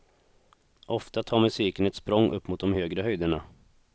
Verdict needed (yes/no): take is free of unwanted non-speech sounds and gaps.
yes